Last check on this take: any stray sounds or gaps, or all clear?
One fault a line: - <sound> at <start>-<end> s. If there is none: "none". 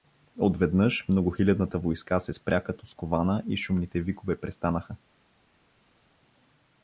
none